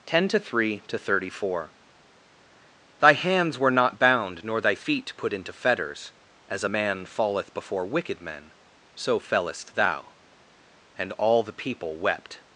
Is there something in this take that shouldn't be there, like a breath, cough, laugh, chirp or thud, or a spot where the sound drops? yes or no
no